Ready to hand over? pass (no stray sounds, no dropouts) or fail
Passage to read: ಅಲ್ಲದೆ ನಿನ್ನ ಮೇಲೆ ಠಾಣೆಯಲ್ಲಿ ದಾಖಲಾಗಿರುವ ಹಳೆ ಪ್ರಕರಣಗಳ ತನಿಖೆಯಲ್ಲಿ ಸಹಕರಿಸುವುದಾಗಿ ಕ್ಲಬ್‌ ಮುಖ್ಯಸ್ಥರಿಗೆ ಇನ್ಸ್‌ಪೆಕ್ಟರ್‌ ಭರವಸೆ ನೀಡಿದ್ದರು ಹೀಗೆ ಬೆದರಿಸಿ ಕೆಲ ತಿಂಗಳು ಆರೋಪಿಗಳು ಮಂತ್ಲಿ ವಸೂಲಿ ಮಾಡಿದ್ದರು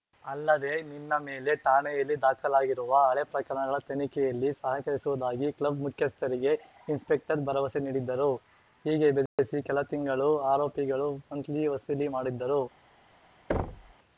fail